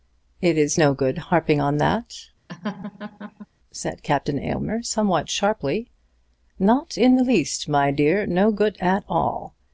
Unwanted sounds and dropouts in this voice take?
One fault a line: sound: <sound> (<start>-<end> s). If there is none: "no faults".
sound: laugh (2.5-3.5 s)